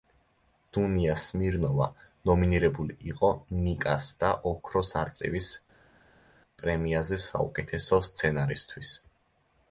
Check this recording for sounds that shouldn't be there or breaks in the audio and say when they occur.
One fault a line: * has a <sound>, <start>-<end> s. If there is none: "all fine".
all fine